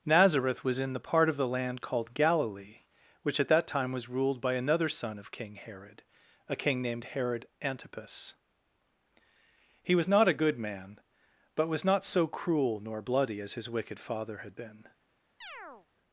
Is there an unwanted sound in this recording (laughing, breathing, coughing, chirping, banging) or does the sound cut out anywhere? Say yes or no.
yes